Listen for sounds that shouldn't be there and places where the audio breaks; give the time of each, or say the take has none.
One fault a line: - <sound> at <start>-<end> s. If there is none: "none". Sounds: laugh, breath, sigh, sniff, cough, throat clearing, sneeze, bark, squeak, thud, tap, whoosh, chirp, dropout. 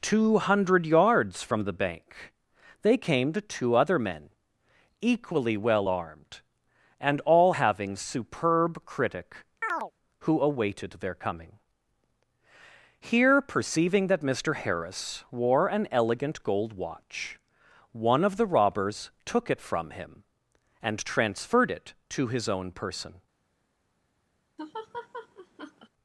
- chirp at 9.6-9.9 s
- laugh at 24.6-25.9 s